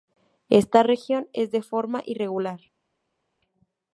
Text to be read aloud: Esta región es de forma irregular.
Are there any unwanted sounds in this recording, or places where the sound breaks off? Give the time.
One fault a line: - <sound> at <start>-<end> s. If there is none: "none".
none